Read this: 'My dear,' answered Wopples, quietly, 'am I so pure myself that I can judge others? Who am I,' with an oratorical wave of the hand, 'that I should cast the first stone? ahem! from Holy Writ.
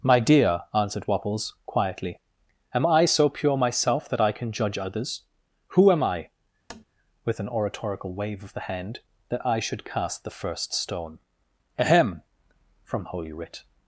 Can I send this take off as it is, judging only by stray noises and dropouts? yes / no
no